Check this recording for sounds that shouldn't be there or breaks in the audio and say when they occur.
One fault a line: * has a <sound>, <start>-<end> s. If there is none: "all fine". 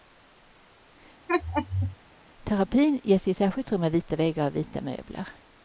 * has a laugh, 1.3-2.0 s